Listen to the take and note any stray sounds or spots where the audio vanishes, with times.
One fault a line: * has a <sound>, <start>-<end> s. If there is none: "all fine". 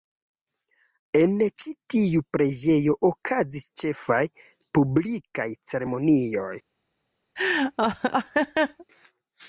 * has a laugh, 7.4-8.9 s